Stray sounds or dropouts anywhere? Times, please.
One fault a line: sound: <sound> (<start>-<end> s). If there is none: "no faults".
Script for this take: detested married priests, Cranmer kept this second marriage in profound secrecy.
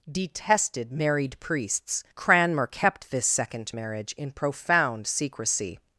no faults